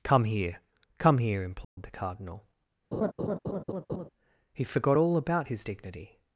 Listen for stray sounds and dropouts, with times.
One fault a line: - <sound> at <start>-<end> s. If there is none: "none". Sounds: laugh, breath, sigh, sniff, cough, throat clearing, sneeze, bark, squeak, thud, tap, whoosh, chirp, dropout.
- dropout at 1.6-1.8 s
- laugh at 2.9-4.1 s